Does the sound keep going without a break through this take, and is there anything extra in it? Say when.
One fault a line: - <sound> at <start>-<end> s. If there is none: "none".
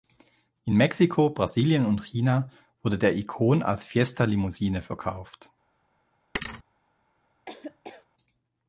- thud at 6.3-6.6 s
- laugh at 7.5-8.1 s